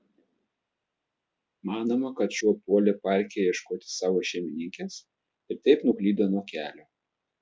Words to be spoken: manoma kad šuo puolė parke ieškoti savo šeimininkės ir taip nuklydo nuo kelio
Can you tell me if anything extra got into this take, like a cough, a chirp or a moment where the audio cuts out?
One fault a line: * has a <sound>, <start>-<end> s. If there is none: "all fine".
all fine